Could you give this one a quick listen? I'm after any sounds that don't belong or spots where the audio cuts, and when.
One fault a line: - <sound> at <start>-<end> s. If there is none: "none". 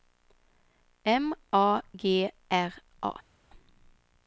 none